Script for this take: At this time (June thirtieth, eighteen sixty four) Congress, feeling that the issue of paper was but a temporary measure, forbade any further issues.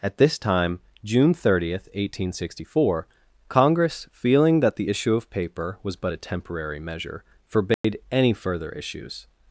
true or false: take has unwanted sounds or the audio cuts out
true